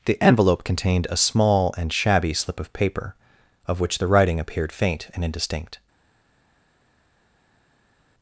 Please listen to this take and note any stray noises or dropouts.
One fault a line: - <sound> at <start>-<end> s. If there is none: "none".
none